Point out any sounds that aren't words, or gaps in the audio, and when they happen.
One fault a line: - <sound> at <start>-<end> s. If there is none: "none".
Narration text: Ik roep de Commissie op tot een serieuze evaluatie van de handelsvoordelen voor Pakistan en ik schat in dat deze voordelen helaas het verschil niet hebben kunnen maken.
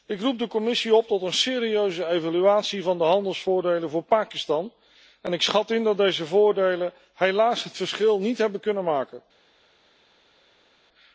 none